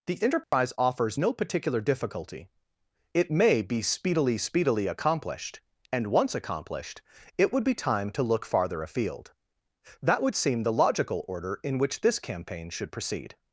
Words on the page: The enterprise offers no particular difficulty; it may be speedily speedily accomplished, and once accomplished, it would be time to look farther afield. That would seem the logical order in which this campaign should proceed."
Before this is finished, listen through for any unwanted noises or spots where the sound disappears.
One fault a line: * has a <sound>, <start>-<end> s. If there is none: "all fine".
* has a dropout, 0.4-0.5 s